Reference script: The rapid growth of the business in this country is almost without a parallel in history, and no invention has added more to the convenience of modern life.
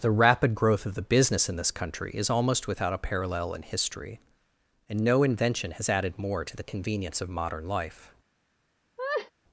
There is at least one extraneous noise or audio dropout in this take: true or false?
true